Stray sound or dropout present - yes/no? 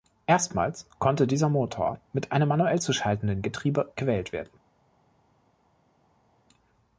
no